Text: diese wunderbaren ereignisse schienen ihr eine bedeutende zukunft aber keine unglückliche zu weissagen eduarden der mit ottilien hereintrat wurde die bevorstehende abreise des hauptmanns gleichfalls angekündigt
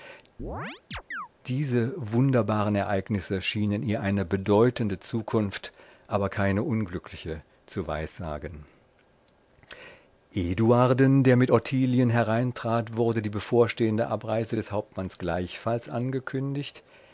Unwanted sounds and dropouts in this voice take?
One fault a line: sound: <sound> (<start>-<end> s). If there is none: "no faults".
sound: chirp (0.4-1.3 s)